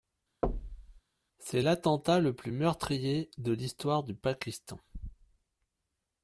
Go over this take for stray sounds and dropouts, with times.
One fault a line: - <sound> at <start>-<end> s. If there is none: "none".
- thud at 0.4-1.0 s